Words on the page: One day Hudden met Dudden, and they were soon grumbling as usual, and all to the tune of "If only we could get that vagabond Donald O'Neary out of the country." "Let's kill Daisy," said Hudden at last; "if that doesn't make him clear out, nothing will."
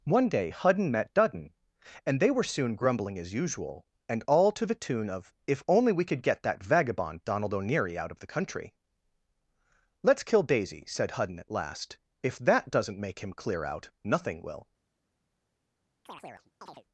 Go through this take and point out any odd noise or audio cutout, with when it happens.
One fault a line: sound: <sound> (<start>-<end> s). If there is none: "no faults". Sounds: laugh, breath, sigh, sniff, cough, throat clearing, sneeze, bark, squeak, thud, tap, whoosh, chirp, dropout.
sound: chirp (16.1-16.8 s)